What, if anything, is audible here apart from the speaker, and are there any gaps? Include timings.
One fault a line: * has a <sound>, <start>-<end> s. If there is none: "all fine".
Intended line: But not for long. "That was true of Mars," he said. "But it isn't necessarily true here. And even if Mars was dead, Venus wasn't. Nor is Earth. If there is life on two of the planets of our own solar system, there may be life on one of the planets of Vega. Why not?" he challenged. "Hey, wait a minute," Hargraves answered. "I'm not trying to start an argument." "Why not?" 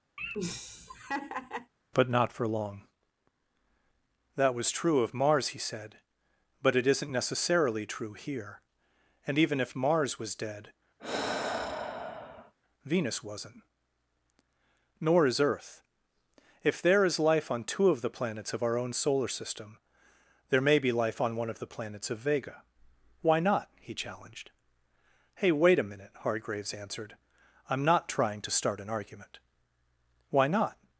* has a laugh, 0.2-1.7 s
* has a sigh, 11.0-12.5 s